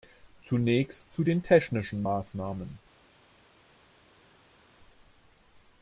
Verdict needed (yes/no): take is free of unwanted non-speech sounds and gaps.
yes